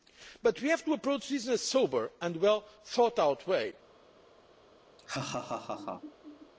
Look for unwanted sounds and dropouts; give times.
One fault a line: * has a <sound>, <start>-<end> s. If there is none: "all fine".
* has a laugh, 5.0-6.5 s